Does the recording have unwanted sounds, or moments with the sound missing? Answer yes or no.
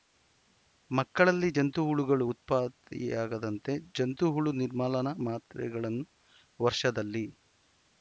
no